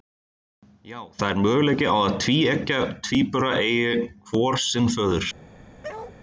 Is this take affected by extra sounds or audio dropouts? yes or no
yes